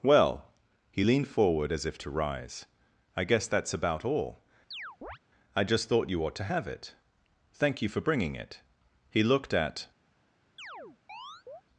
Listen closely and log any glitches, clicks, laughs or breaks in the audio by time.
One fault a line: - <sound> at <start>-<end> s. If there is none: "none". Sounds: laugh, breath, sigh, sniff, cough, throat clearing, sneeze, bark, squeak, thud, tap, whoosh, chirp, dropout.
- chirp at 4.7-5.2 s
- chirp at 10.6-11.6 s